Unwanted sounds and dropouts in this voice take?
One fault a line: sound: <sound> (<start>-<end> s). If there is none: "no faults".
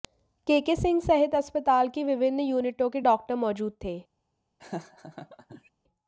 sound: laugh (4.6-5.7 s)